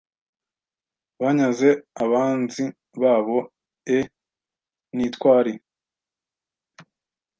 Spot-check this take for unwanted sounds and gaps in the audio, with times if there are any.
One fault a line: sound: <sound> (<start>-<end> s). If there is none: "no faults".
no faults